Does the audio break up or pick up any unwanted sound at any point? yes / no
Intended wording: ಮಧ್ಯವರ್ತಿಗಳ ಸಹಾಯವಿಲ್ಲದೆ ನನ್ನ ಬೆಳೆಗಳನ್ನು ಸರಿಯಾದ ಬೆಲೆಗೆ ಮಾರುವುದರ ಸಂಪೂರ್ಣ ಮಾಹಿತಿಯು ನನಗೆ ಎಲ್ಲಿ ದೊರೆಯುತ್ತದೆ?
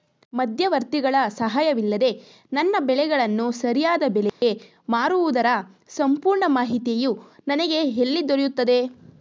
yes